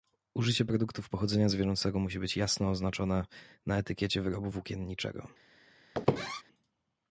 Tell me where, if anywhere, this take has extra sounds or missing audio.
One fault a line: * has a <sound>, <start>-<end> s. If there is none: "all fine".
* has a squeak, 5.9-6.4 s